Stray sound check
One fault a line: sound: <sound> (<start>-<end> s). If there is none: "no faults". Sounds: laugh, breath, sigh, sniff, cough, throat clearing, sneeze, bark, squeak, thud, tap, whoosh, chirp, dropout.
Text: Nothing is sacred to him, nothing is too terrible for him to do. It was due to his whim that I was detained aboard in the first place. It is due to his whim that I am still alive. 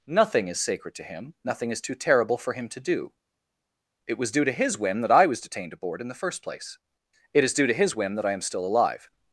no faults